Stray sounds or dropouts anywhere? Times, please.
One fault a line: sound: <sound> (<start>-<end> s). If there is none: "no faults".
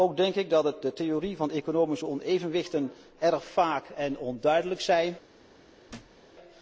sound: thud (5.9-6.2 s)